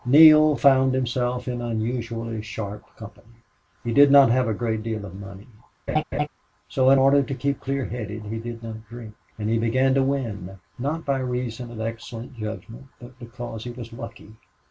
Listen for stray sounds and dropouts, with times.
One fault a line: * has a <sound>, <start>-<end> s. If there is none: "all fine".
* has a laugh, 5.9-6.3 s